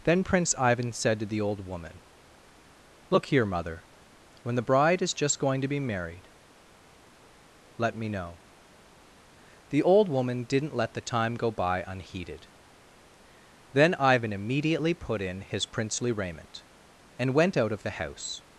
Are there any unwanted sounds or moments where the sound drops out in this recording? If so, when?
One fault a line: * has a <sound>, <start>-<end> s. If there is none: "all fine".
all fine